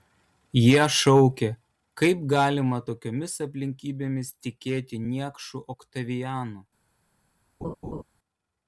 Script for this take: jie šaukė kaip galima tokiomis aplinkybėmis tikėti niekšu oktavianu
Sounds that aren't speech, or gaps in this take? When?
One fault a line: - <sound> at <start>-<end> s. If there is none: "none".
- laugh at 7.6-8.0 s